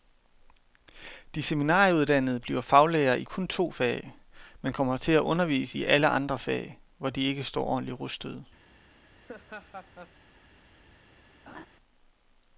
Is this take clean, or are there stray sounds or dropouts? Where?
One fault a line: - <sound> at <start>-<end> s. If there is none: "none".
- laugh at 9.1-10.2 s
- laugh at 11.5-11.7 s